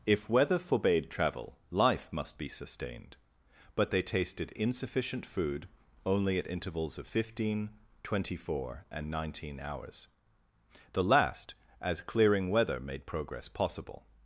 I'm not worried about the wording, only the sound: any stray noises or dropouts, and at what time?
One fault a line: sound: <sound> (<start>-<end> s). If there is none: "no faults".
no faults